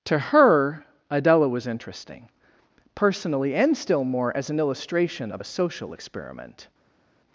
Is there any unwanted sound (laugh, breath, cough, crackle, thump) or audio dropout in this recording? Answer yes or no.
no